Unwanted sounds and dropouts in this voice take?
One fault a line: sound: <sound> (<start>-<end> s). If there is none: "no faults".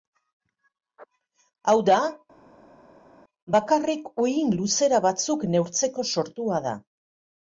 no faults